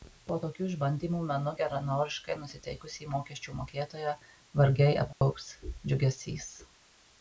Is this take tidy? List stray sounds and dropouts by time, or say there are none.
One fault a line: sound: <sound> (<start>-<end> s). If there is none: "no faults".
sound: dropout (5.1-5.2 s)